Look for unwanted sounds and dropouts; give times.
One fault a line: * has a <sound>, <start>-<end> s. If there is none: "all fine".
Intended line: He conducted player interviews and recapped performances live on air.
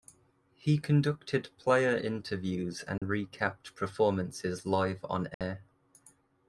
* has a dropout, 3.0-3.0 s
* has a dropout, 5.3-5.4 s